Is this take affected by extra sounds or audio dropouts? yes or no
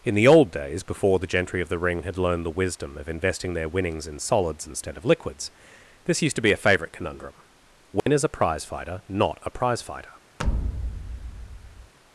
yes